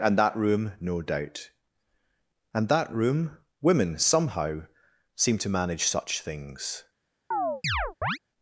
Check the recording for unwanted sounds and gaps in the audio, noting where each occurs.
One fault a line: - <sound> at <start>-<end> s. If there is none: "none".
- chirp at 7.3-8.2 s